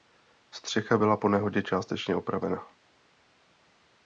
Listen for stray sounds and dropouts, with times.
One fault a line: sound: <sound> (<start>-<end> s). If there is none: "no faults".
no faults